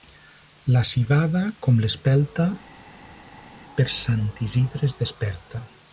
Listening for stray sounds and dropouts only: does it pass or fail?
pass